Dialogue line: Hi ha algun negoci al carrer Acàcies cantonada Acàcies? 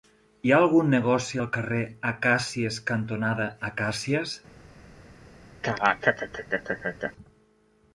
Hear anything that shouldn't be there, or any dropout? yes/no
yes